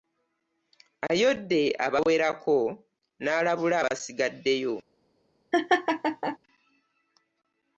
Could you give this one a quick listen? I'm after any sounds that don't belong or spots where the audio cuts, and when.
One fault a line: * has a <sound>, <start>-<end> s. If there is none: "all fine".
* has a laugh, 5.5-6.4 s